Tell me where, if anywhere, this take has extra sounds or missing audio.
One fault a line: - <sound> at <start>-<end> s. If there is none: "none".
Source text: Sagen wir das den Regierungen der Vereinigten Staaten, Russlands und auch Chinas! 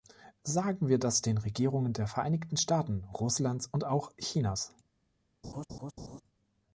- laugh at 5.4-6.2 s